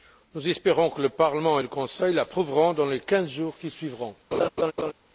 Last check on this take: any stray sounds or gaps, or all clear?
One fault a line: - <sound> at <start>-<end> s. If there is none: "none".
- laugh at 4.3-4.9 s